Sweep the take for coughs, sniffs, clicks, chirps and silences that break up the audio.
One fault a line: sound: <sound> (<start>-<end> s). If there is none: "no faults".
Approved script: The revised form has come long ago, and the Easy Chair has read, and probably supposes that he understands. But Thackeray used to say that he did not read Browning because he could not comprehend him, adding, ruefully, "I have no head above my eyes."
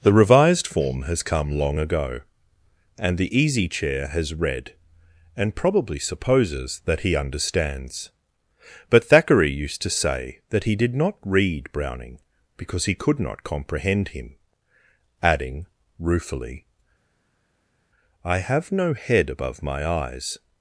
no faults